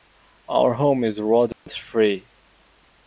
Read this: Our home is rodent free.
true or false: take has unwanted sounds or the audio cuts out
true